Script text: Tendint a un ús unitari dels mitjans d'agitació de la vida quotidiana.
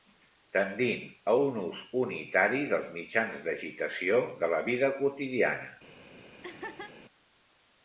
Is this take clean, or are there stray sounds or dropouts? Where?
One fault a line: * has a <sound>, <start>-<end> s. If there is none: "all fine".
* has a laugh, 6.4-7.0 s